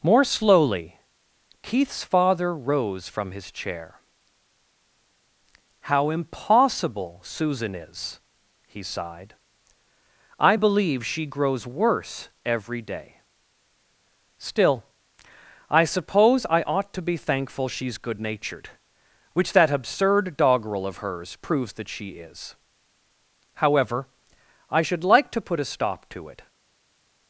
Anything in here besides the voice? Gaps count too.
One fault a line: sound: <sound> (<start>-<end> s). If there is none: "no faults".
no faults